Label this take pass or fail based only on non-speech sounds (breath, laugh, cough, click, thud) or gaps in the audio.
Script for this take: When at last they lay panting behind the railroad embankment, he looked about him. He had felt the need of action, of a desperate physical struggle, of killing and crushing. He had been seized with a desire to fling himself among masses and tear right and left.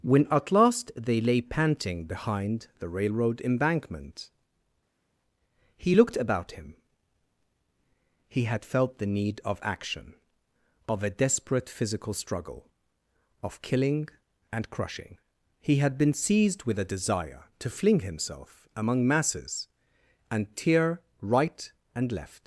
pass